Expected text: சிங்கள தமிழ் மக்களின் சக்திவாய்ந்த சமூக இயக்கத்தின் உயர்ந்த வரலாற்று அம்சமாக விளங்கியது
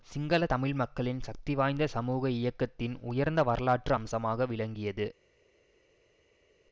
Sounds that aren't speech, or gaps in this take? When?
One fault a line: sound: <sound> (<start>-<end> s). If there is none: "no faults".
no faults